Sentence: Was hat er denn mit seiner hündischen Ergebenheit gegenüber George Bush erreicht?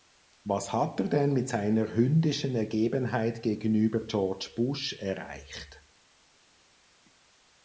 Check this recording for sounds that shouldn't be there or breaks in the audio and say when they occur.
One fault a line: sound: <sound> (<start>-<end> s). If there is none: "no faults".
no faults